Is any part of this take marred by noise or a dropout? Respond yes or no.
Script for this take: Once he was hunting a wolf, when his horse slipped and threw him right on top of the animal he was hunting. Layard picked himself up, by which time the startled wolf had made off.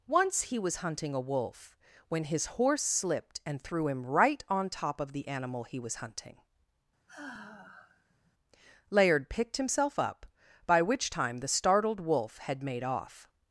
yes